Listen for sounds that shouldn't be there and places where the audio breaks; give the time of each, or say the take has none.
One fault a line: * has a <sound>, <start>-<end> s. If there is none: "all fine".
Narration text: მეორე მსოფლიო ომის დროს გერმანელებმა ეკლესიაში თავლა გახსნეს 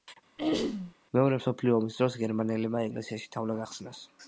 * has a throat clearing, 0.4-0.9 s